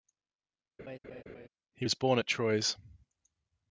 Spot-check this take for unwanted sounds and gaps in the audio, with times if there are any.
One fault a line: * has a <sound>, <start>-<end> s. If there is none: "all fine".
* has a laugh, 0.8-1.5 s